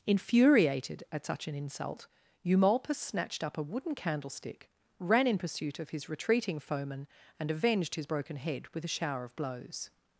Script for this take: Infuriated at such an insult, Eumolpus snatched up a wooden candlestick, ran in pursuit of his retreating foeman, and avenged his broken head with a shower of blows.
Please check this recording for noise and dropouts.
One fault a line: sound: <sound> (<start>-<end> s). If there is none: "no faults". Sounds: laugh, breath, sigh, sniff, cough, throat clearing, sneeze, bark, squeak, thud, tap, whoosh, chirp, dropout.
no faults